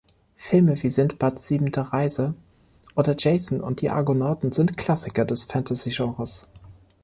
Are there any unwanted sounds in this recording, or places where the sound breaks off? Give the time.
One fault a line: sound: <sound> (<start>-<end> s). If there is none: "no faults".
no faults